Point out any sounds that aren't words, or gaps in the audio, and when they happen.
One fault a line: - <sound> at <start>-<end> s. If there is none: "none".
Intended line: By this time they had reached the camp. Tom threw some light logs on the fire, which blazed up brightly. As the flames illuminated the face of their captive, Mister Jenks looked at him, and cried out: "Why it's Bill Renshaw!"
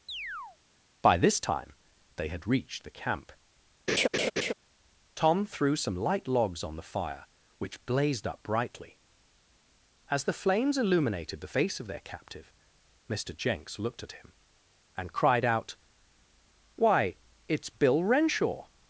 - chirp at 0.1-0.6 s
- laugh at 3.9-4.5 s